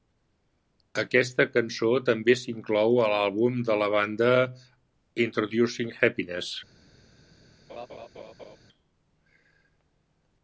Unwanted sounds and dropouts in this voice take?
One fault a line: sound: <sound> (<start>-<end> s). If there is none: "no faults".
sound: laugh (7.7-8.6 s)